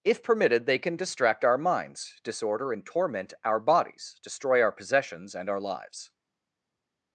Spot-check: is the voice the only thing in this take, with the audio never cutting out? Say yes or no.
yes